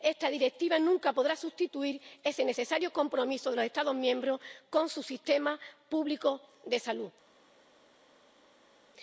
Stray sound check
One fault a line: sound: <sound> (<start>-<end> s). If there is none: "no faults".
no faults